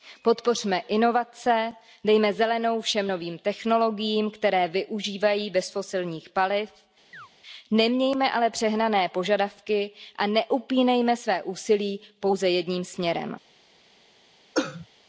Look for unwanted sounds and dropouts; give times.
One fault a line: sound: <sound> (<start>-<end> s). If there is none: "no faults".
sound: chirp (7.1-7.3 s)
sound: cough (14.5-14.9 s)